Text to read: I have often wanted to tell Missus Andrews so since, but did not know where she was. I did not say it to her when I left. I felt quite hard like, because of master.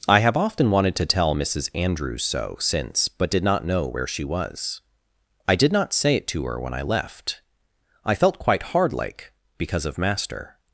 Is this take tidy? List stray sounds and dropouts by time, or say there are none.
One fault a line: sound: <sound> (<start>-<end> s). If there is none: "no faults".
no faults